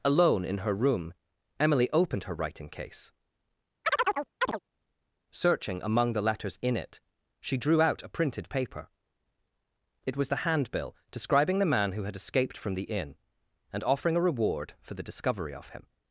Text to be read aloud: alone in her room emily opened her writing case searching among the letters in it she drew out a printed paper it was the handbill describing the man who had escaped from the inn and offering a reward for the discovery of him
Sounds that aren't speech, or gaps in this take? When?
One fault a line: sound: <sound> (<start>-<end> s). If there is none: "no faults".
sound: chirp (3.8-4.6 s)